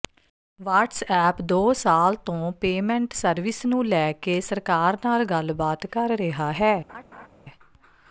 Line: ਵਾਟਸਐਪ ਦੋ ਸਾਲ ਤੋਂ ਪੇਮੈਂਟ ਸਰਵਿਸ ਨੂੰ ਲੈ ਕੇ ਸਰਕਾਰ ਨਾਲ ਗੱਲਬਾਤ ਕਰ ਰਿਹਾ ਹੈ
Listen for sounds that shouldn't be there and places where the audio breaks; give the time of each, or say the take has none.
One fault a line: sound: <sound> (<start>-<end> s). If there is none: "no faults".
sound: laugh (6.9-7.3 s)